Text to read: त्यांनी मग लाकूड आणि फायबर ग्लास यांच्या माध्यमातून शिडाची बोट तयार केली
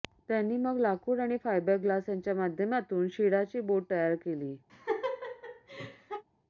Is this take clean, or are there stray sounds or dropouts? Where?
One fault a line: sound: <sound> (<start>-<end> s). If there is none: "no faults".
sound: laugh (4.7-6.2 s)